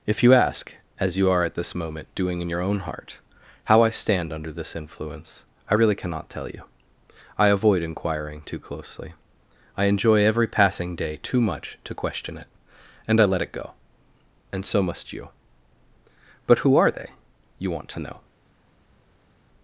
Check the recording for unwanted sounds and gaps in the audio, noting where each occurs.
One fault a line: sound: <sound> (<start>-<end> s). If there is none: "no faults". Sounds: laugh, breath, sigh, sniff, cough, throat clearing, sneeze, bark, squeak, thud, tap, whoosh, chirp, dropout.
no faults